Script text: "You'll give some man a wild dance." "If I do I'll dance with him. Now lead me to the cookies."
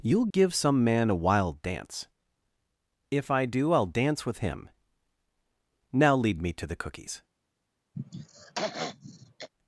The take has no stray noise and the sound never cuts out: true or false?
false